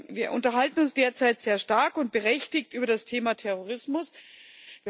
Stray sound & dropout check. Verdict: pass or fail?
pass